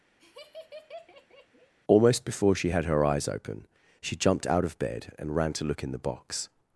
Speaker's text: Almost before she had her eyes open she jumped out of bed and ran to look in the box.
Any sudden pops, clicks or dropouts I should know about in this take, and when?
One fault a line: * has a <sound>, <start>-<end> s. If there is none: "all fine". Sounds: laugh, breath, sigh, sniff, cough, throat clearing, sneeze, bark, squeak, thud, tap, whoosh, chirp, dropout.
* has a laugh, 0.2-1.7 s